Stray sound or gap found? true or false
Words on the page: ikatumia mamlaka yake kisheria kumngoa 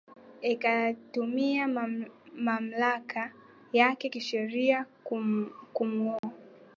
true